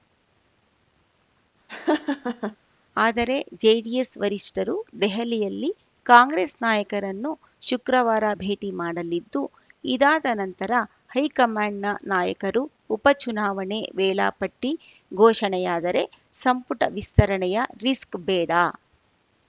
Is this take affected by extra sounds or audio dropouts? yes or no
yes